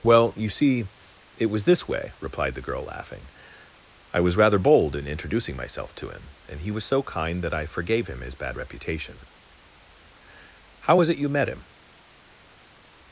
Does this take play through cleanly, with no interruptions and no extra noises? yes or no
yes